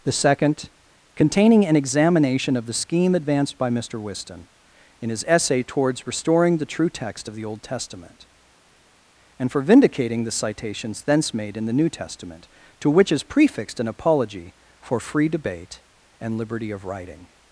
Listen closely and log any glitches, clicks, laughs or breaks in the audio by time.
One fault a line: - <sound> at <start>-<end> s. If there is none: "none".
none